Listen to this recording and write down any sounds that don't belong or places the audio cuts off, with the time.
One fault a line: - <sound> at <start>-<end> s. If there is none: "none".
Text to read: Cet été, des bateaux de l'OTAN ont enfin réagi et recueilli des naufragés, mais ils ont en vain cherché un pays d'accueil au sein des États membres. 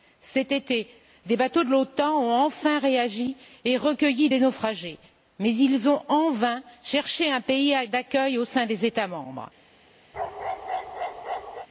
- bark at 10.1-11.7 s